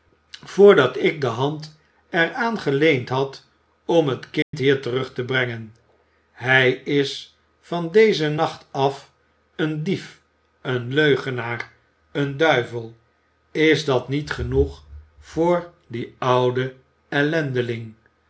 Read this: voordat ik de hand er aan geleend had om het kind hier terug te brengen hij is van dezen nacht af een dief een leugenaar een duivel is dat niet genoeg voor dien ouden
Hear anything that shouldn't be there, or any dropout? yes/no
yes